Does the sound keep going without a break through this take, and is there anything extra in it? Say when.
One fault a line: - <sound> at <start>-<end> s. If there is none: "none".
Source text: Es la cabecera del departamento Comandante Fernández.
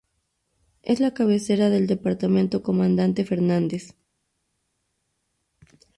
none